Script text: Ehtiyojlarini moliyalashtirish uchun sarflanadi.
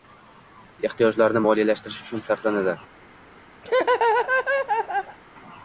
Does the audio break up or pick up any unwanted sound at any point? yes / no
yes